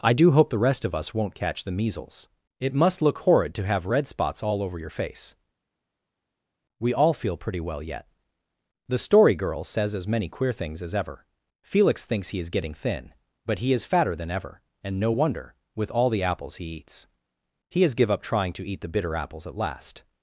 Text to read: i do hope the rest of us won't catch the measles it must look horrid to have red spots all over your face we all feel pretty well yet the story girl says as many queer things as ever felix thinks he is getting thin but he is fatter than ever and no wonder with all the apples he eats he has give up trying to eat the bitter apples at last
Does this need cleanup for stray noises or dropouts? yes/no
no